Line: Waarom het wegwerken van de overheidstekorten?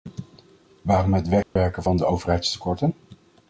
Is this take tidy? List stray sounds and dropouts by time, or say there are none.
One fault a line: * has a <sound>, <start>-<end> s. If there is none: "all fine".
* has a dropout, 1.4-1.6 s